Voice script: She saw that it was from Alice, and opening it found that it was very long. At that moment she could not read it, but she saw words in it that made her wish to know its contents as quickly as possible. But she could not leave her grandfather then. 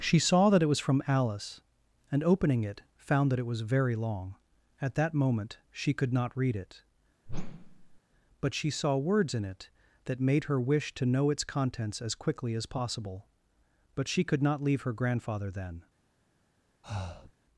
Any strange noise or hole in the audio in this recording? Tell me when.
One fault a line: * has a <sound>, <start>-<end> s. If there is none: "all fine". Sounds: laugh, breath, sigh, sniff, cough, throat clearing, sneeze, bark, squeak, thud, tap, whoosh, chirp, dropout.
* has a whoosh, 7.3-8.0 s
* has a breath, 16.8-17.3 s